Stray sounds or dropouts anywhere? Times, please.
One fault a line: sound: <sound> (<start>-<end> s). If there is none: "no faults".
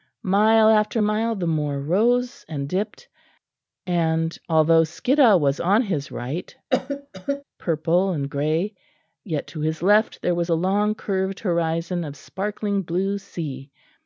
sound: cough (6.7-7.4 s)